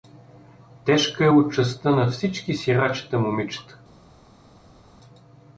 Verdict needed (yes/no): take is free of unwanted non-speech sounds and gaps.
yes